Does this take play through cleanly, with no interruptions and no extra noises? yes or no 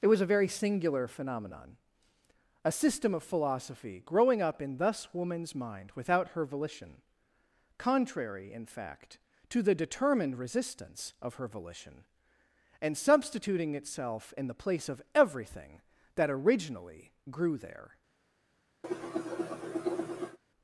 no